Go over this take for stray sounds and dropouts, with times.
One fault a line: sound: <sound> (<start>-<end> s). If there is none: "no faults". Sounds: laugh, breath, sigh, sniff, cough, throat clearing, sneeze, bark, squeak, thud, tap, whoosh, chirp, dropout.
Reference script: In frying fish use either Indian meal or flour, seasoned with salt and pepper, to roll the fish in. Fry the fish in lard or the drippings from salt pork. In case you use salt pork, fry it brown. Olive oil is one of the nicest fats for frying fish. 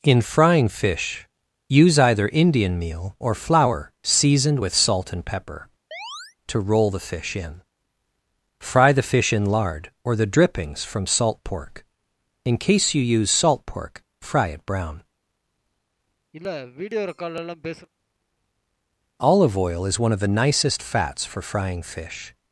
sound: chirp (5.9-6.4 s)
sound: sniff (16.3-17.9 s)